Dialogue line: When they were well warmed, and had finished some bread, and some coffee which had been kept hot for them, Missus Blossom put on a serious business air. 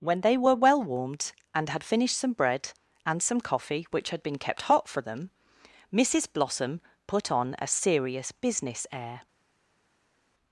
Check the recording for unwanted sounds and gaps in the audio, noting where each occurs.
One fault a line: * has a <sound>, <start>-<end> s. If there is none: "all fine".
all fine